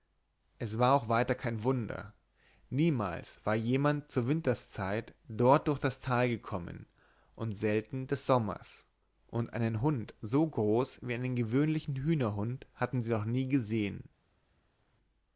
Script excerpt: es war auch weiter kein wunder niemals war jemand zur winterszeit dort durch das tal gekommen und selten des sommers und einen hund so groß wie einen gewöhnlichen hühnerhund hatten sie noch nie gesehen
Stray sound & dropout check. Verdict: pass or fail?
pass